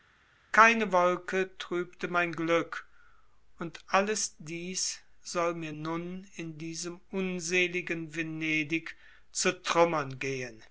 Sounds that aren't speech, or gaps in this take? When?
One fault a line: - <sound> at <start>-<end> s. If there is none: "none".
none